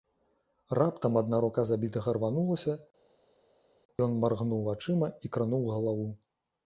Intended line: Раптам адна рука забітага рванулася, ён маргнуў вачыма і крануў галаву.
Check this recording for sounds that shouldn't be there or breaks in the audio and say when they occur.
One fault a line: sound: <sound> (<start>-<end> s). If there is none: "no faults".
no faults